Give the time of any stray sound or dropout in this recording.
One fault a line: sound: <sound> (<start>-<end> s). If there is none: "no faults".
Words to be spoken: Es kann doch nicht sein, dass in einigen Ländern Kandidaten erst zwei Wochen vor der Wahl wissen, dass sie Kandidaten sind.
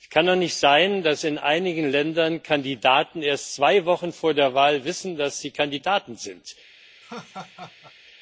sound: laugh (7.0-7.9 s)